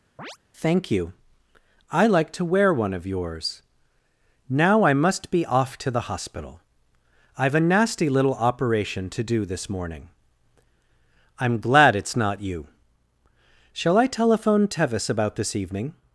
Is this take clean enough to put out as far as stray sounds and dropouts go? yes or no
no